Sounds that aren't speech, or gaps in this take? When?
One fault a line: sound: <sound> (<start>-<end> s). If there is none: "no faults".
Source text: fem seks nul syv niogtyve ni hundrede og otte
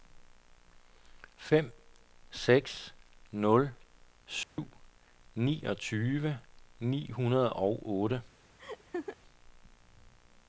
sound: dropout (4.4-4.6 s)
sound: laugh (8.6-9.2 s)